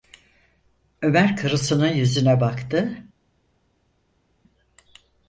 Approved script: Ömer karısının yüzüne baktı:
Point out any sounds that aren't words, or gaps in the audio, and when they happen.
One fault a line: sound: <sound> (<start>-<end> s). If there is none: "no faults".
no faults